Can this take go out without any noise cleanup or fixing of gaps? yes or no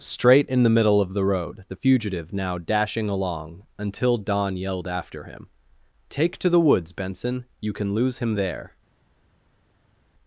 yes